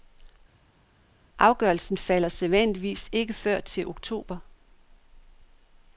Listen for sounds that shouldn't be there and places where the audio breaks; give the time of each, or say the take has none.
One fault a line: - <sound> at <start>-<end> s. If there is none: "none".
none